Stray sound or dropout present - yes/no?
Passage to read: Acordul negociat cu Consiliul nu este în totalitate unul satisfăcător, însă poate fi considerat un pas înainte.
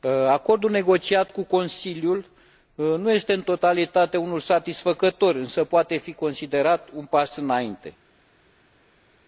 no